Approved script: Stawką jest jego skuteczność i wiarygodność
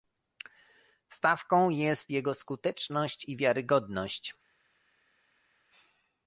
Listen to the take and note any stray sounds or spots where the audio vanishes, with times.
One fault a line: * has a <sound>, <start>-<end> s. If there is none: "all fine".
all fine